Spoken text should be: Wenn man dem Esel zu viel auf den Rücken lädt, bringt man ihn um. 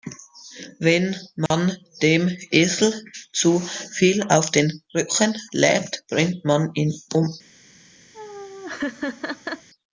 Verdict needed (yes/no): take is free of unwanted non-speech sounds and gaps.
no